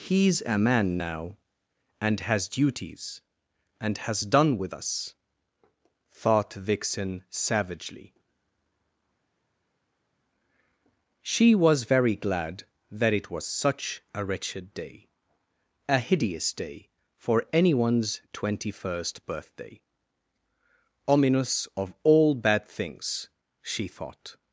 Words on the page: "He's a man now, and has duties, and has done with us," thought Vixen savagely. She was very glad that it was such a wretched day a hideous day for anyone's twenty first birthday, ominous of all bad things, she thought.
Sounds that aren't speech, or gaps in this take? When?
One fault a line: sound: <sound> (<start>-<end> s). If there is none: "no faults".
no faults